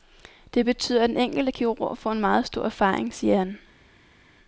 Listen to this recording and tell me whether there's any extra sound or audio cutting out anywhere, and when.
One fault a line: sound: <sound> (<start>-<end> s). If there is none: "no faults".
no faults